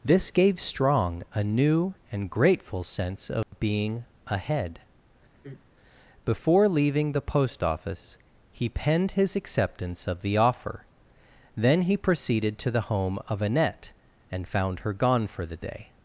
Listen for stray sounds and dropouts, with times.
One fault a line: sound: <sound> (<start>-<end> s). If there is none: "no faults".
sound: dropout (3.4-3.5 s)
sound: sigh (5.3-5.6 s)